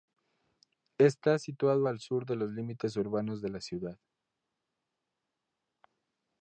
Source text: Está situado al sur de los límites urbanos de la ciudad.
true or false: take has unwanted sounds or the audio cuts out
false